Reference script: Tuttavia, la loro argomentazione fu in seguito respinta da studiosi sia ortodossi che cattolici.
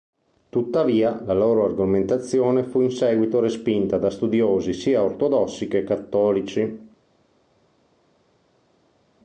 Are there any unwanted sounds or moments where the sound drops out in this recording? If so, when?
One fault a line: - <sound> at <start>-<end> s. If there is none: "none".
none